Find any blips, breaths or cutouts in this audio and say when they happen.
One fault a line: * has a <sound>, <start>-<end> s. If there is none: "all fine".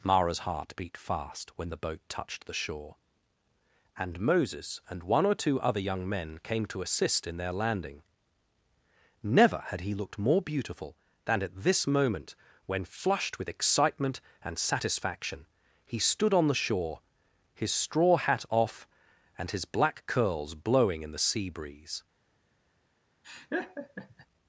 * has a laugh, 23.2-24.3 s